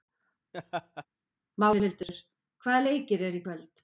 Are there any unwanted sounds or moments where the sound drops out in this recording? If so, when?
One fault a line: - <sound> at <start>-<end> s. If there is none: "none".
- laugh at 0.5-1.1 s